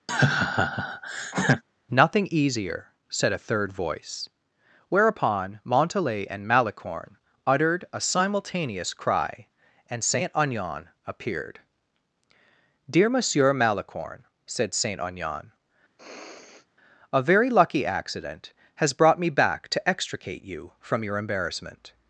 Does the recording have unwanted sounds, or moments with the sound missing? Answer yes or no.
yes